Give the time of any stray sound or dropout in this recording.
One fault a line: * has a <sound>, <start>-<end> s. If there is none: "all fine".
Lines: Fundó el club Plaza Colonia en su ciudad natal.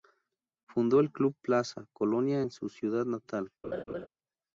* has a laugh, 3.6-4.1 s